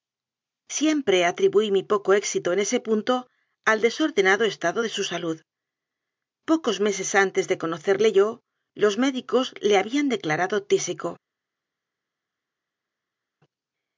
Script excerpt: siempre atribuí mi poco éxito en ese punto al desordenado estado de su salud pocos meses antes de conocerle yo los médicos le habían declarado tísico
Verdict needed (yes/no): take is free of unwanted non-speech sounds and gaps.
yes